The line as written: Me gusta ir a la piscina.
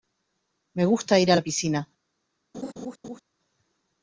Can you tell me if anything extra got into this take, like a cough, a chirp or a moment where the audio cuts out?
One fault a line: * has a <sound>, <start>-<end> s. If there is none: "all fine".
* has a laugh, 2.5-3.2 s